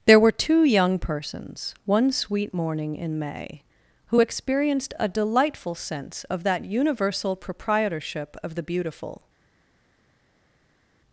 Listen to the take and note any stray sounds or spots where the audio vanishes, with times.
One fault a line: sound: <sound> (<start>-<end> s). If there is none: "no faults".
no faults